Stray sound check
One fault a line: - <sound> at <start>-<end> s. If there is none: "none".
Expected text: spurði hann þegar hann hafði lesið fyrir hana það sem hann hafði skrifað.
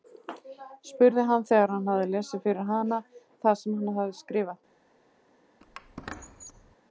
- squeak at 5.6-6.8 s